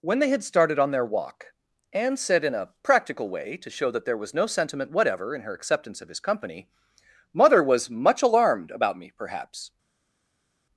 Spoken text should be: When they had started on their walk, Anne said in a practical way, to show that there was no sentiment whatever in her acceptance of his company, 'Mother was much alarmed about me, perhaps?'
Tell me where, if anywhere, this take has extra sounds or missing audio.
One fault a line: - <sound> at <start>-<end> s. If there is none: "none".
none